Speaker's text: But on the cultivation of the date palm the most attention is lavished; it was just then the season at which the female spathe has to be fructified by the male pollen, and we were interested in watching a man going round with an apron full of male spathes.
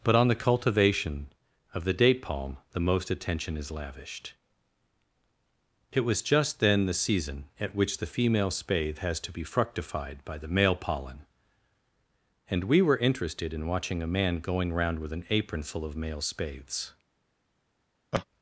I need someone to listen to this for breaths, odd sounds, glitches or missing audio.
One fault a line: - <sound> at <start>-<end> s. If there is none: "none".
- laugh at 18.1-18.3 s